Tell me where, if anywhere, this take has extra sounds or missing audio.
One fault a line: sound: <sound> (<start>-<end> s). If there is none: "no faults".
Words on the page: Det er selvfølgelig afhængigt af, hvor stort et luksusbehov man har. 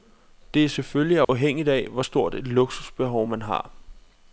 sound: dropout (1.2-1.3 s)